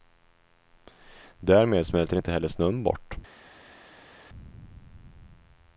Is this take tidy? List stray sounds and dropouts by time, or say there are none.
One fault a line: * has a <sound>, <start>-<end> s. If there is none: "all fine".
all fine